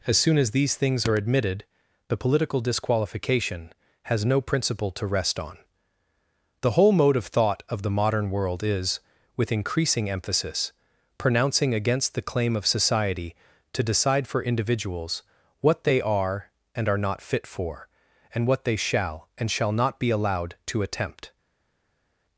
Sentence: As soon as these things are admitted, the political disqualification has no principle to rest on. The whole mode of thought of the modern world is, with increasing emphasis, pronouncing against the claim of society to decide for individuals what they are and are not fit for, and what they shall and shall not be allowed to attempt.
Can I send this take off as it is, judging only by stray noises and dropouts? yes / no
yes